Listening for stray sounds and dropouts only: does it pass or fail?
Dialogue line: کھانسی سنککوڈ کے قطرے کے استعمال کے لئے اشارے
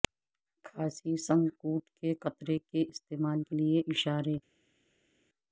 pass